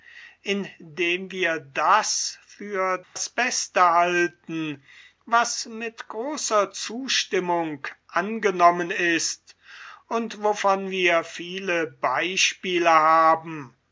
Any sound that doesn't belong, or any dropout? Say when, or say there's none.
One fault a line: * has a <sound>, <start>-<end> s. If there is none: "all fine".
* has a dropout, 3.0-3.2 s